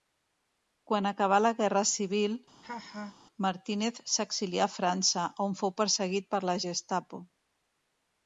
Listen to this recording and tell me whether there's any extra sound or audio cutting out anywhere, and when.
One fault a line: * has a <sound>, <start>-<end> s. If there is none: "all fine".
* has a laugh, 2.6-3.2 s